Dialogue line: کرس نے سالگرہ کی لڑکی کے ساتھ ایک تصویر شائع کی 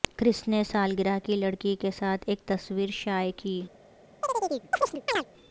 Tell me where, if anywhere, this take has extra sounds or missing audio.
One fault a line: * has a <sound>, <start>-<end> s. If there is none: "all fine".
* has a chirp, 4.2-5.3 s